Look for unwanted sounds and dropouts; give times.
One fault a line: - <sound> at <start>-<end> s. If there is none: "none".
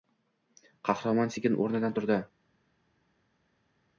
none